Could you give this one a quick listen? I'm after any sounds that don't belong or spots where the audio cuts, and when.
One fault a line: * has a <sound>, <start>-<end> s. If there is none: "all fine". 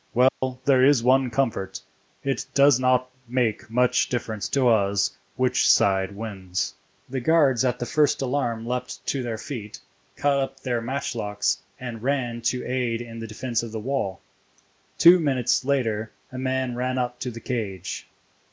* has a dropout, 0.3-0.4 s